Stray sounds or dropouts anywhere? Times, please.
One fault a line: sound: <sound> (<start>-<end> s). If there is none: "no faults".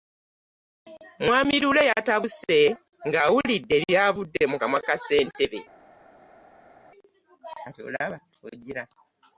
no faults